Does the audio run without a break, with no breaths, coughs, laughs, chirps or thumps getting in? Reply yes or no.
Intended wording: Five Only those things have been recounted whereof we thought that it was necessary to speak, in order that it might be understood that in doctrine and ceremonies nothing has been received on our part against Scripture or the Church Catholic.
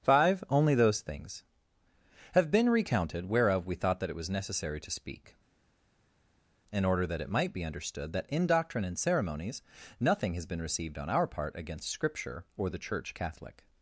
yes